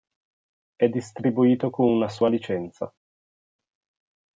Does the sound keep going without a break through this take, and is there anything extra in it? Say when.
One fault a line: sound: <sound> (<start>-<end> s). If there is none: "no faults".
no faults